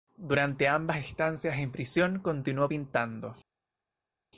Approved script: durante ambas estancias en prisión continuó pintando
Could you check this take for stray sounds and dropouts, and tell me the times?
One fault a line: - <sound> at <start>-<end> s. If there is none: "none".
none